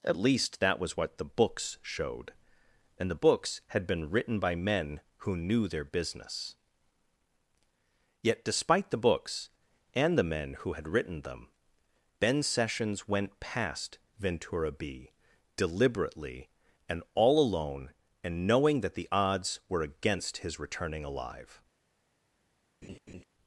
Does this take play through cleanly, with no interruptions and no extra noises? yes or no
no